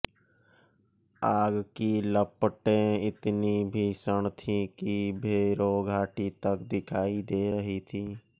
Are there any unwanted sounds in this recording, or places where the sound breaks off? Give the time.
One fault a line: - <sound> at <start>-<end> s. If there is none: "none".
none